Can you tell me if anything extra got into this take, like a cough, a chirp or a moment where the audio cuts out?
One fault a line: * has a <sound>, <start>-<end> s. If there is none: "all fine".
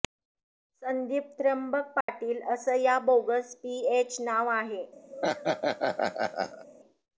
* has a dropout, 2.0-2.1 s
* has a laugh, 5.1-6.6 s